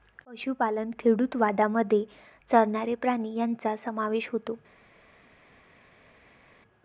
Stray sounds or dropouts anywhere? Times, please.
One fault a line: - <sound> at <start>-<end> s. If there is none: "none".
none